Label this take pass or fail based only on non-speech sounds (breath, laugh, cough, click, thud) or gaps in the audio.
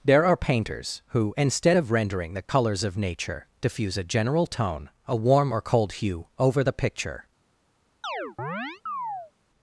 fail